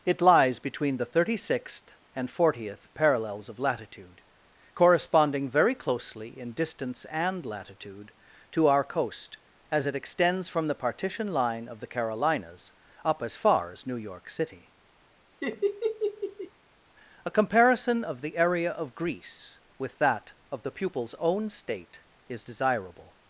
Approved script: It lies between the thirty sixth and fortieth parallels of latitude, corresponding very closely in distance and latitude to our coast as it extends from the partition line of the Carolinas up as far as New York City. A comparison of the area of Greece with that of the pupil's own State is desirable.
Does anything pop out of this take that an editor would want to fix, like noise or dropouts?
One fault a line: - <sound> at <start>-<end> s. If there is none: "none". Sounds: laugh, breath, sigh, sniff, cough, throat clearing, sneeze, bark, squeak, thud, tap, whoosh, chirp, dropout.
- laugh at 15.4-16.5 s